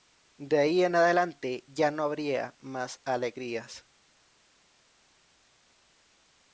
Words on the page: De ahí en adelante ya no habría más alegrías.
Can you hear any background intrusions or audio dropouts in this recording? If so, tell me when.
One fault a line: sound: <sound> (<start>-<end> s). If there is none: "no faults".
no faults